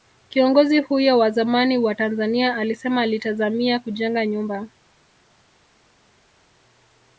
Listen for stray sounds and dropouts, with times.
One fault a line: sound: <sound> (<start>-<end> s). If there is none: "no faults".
no faults